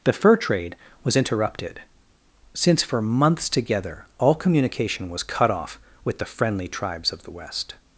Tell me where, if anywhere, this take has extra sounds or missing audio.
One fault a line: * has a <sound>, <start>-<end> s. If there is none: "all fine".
all fine